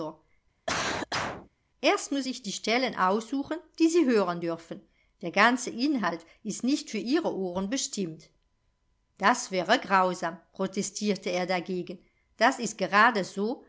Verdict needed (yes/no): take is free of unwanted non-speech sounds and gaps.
no